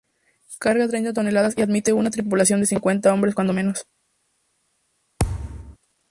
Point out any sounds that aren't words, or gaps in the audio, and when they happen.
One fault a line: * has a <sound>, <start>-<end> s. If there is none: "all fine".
* has a thud, 5.2-5.8 s